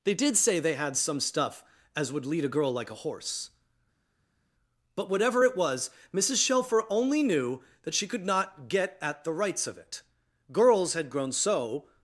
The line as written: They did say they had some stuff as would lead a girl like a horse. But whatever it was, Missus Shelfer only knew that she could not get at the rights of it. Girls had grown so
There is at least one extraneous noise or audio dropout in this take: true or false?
false